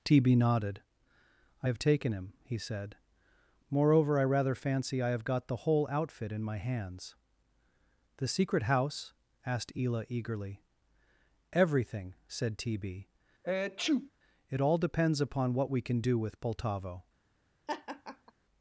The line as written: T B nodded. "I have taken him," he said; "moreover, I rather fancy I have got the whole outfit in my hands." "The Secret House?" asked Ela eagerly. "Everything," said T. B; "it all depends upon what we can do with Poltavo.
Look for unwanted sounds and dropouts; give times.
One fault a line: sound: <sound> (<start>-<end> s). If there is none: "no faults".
sound: sneeze (13.4-14.1 s)
sound: laugh (17.7-18.3 s)